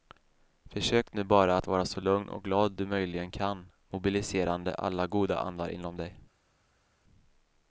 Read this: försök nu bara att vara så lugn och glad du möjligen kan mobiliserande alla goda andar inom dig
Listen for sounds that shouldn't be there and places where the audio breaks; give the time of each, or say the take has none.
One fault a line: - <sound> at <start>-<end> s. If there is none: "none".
none